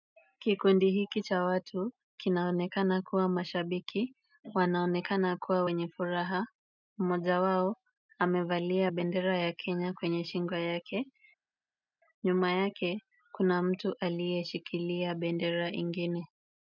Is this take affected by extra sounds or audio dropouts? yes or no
no